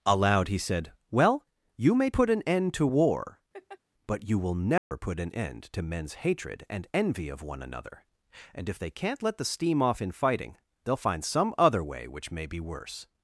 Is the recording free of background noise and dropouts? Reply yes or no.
no